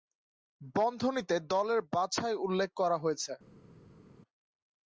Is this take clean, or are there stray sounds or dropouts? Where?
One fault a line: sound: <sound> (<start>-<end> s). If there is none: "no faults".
no faults